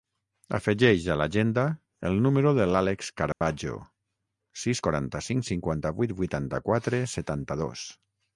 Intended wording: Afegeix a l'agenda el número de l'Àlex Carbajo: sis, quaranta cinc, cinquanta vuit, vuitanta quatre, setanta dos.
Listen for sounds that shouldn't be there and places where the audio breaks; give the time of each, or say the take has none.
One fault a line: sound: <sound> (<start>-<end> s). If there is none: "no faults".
sound: dropout (3.3-3.4 s)